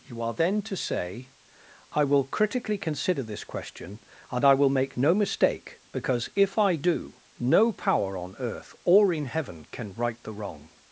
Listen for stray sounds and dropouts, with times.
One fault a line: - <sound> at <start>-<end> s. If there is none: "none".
none